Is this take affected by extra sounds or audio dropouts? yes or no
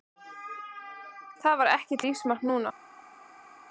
no